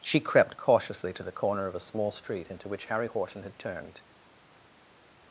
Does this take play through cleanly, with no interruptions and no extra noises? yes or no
yes